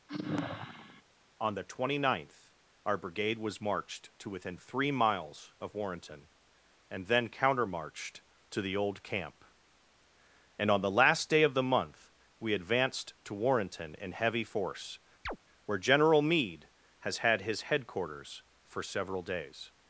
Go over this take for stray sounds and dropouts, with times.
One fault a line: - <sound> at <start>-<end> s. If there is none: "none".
- sigh at 0.1-1.0 s
- chirp at 15.3-15.4 s